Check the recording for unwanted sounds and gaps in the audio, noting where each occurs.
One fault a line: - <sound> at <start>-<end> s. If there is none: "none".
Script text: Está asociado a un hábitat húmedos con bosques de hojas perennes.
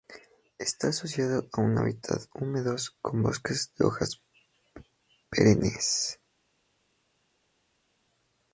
none